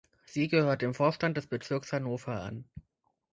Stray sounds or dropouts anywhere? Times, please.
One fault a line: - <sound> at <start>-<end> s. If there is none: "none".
none